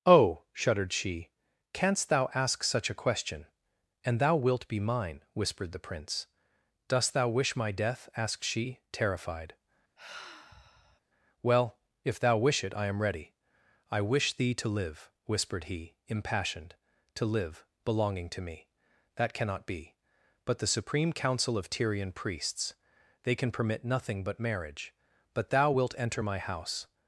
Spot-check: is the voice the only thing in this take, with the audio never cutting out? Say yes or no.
no